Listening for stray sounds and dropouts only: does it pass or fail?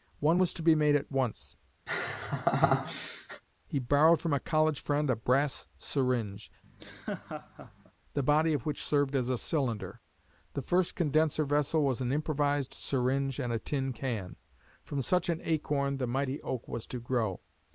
fail